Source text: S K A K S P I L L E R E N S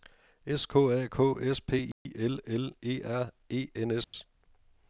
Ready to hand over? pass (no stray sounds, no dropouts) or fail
fail